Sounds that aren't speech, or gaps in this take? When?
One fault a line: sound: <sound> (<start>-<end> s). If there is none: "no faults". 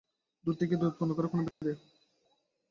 sound: dropout (1.5-1.6 s)